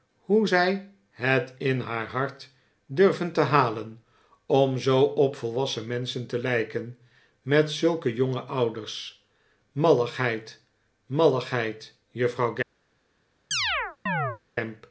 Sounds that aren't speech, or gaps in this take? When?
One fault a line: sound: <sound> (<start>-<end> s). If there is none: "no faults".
sound: chirp (13.5-14.4 s)